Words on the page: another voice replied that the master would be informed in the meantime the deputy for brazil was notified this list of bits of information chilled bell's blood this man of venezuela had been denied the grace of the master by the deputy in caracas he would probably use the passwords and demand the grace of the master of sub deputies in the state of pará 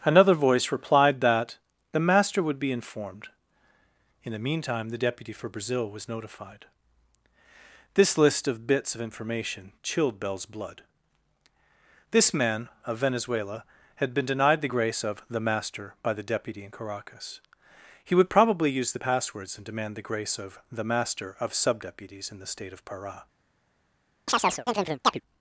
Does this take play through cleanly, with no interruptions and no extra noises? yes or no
no